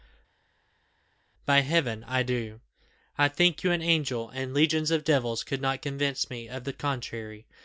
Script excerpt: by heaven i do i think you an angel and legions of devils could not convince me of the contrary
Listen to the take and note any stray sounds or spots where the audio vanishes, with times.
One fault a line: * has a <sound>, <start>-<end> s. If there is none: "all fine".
all fine